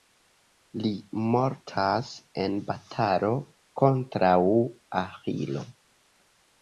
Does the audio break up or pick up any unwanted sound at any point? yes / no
no